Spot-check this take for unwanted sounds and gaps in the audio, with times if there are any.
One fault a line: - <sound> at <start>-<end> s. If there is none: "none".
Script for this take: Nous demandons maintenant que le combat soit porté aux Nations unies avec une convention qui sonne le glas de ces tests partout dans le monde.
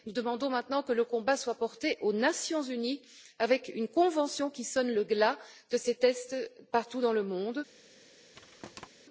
- thud at 8.3-8.9 s